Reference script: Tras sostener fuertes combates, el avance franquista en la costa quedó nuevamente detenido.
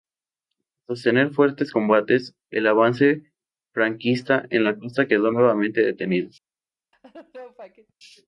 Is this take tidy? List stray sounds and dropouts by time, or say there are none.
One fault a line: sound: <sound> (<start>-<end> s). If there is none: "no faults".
sound: laugh (6.9-7.9 s)